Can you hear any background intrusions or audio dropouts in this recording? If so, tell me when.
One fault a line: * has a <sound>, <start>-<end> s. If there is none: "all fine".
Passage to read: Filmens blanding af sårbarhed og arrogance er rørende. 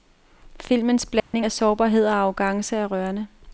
* has a dropout, 1.2-1.3 s